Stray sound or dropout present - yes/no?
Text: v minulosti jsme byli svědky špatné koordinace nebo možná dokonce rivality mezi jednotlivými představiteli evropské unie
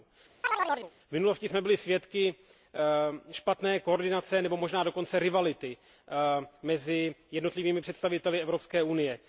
yes